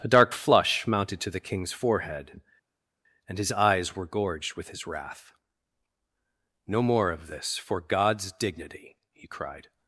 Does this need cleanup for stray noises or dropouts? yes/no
no